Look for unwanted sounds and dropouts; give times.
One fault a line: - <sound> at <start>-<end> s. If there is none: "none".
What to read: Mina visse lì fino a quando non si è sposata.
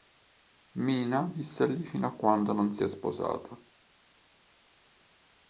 none